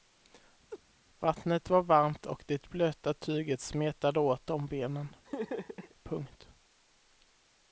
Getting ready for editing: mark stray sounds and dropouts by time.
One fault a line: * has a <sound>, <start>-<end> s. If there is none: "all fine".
* has a laugh, 0.7-0.8 s
* has a laugh, 5.2-5.9 s